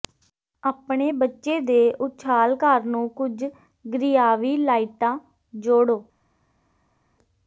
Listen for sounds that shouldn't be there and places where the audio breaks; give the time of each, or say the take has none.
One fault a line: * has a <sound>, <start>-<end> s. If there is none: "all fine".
all fine